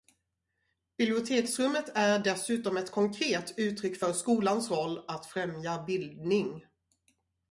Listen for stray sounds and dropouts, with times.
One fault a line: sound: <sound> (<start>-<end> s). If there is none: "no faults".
no faults